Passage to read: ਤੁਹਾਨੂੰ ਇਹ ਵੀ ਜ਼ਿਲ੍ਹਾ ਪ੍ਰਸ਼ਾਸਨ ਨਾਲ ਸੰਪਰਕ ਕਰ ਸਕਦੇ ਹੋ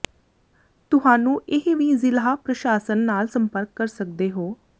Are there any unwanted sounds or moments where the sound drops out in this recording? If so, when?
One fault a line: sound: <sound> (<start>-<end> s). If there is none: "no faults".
no faults